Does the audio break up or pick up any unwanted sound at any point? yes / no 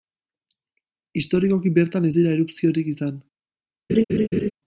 yes